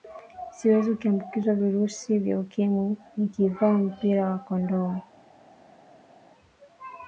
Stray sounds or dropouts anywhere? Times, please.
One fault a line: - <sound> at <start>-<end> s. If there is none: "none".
none